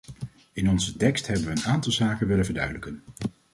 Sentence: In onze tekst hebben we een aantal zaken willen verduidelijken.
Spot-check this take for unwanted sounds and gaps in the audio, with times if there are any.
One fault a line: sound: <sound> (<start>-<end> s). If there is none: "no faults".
no faults